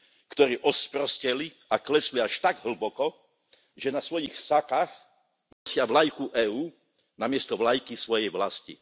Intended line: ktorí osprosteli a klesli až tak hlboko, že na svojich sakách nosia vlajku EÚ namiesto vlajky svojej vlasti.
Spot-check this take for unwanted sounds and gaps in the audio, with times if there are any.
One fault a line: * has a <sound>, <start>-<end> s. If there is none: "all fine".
* has a dropout, 5.5-5.7 s